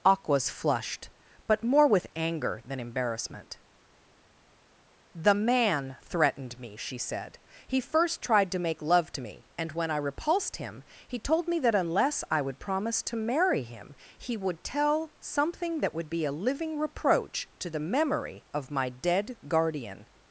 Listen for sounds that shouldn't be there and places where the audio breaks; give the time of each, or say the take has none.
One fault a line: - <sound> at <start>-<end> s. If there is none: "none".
none